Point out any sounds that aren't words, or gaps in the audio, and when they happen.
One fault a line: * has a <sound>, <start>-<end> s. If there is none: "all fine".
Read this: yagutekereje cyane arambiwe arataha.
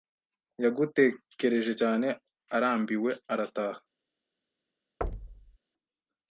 * has a thud, 5.0-5.6 s